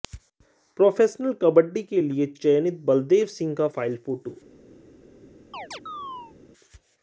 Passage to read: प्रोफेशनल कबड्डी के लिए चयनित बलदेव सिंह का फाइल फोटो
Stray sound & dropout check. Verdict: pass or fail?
fail